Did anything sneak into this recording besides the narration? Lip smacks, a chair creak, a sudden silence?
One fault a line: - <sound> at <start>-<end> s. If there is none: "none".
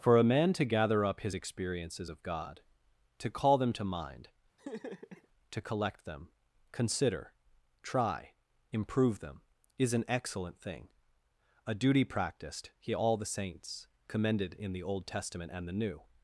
- laugh at 4.6-5.3 s